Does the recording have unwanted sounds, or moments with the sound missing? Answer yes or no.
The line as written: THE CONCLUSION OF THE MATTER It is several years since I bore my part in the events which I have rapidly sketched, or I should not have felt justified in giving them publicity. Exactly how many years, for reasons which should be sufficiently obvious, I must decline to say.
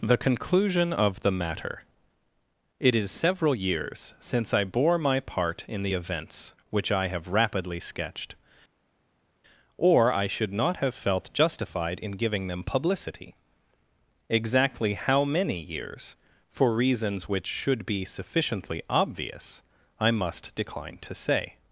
no